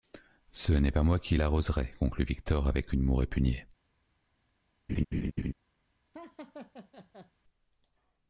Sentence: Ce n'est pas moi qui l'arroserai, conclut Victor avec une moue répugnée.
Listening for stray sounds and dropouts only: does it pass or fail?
fail